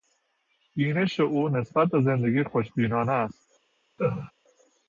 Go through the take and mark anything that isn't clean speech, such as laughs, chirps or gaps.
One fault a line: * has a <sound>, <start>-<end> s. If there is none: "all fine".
* has a laugh, 4.0-4.3 s